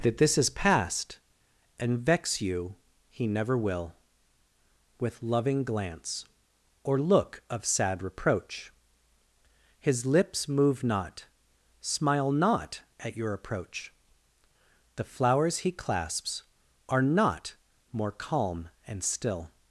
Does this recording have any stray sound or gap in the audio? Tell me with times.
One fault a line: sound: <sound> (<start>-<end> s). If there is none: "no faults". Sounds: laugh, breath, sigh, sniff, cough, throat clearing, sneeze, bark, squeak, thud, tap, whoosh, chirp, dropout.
no faults